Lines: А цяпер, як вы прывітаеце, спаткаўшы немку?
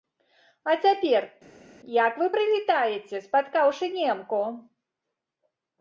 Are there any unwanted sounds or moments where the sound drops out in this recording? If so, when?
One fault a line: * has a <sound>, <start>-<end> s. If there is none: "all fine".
all fine